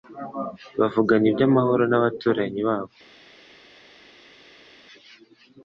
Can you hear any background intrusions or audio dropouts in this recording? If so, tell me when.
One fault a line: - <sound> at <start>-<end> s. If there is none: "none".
none